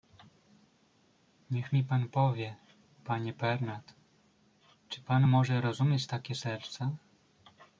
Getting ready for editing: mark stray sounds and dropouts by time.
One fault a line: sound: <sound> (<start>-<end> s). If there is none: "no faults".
no faults